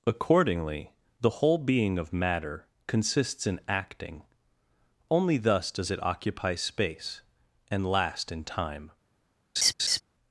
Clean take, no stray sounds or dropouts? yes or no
no